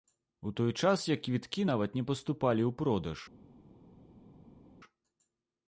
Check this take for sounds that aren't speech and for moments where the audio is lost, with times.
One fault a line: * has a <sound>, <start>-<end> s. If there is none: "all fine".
all fine